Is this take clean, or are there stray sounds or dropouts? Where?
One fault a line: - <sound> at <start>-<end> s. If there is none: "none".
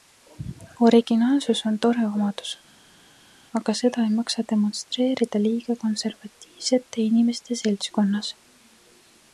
none